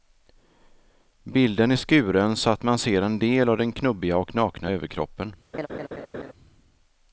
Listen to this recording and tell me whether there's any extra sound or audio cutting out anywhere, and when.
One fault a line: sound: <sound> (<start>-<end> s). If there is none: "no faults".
sound: laugh (5.5-6.3 s)